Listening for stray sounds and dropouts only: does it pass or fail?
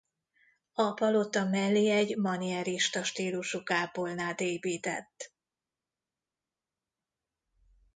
pass